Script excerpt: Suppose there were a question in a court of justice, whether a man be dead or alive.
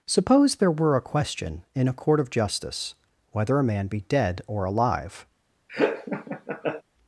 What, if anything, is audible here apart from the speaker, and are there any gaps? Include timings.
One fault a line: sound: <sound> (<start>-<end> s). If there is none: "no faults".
sound: laugh (5.7-6.8 s)